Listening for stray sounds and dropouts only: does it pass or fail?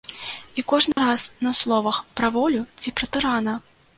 fail